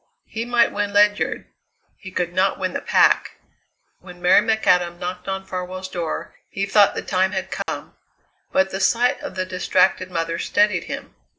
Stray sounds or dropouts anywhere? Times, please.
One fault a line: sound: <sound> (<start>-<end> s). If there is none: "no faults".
sound: dropout (7.6-7.7 s)